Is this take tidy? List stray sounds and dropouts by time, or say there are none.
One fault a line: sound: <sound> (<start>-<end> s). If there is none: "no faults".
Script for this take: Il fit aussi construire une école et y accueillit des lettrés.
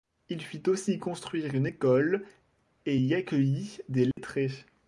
sound: dropout (4.1-4.2 s)